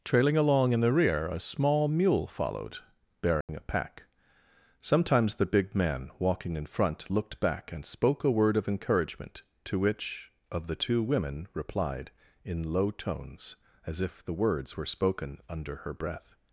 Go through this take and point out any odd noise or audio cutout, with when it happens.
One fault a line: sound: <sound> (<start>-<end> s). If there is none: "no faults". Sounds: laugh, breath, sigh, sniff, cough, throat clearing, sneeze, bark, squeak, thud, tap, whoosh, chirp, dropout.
sound: dropout (3.4-3.5 s)